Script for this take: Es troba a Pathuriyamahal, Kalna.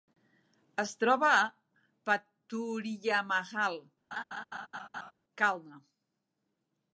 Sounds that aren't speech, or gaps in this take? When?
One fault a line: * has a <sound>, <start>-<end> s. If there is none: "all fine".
* has a laugh, 4.1-5.1 s